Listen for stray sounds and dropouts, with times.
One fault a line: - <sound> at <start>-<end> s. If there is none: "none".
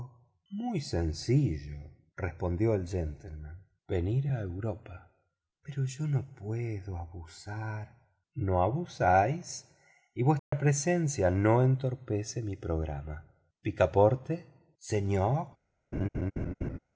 - dropout at 10.4-10.5 s
- laugh at 15.9-16.8 s